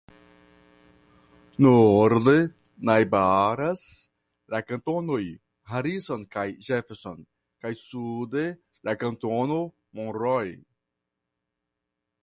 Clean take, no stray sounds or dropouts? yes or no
yes